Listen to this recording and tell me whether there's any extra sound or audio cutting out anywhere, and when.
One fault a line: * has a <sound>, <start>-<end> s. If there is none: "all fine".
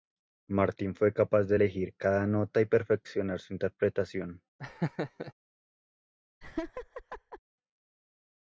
* has a laugh, 4.6-5.3 s
* has a laugh, 6.4-7.4 s